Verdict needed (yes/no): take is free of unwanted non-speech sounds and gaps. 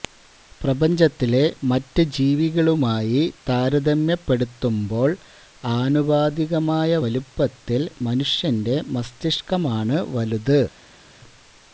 yes